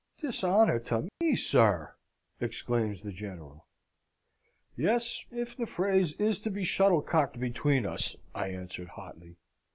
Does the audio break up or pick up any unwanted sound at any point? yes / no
yes